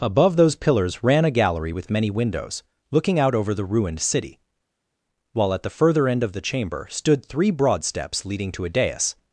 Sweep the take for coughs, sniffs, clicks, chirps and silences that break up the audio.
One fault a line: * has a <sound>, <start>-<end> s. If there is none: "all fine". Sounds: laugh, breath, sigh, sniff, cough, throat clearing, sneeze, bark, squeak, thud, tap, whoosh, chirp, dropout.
all fine